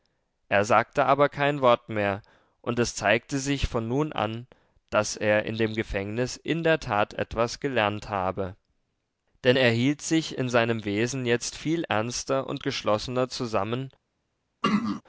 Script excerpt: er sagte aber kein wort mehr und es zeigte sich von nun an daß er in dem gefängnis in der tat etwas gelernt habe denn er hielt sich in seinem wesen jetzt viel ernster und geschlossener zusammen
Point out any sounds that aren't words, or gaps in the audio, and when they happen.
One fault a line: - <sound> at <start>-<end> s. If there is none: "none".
- throat clearing at 14.6-15.0 s